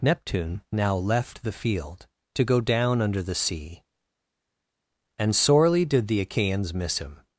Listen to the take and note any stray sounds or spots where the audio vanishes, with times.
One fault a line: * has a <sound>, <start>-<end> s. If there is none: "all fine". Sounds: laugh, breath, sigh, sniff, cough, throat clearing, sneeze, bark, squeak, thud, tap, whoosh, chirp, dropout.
all fine